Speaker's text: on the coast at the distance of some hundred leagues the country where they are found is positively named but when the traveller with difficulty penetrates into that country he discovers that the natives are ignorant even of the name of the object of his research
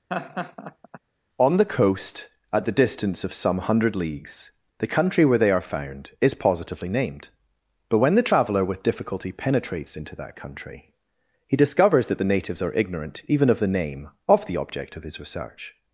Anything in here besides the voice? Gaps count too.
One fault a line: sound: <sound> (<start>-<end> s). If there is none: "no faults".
sound: laugh (0.1-1.0 s)